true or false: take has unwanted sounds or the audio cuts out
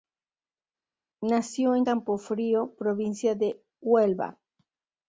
false